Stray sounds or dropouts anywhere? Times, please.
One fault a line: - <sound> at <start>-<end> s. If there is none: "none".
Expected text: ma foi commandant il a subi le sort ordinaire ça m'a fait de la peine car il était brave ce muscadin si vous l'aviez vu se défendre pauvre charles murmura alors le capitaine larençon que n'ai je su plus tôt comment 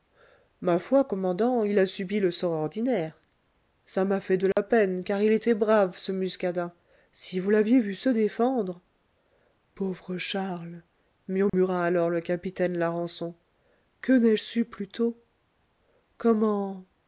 - dropout at 4.5-4.6 s
- dropout at 11.5-11.5 s